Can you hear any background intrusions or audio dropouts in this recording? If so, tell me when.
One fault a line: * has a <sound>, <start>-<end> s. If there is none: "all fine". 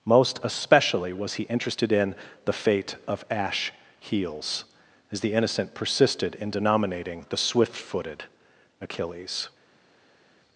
all fine